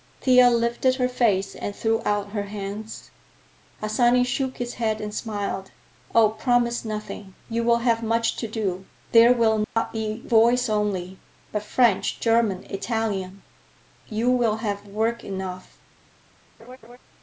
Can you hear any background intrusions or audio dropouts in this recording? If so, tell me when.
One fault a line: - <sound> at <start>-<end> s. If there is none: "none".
- dropout at 9.6-9.8 s
- laugh at 16.6-17.0 s